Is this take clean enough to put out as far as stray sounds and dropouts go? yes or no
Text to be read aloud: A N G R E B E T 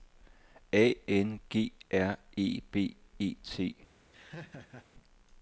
no